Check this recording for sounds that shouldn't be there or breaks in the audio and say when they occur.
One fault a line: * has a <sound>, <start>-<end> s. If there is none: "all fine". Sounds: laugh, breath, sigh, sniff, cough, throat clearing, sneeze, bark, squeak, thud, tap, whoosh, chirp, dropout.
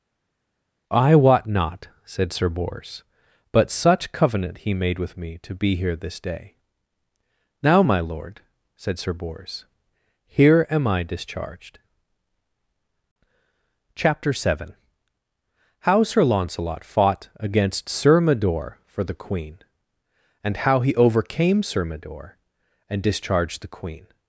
all fine